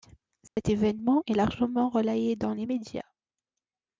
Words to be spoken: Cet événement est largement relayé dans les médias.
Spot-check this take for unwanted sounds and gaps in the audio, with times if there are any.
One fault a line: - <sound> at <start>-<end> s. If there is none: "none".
- dropout at 0.5-0.6 s